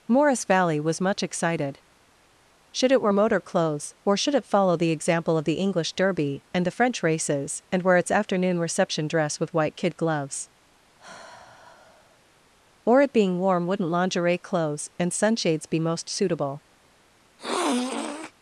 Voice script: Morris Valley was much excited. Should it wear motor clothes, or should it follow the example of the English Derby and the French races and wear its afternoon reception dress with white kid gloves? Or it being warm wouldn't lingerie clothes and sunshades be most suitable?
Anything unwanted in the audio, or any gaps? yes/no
yes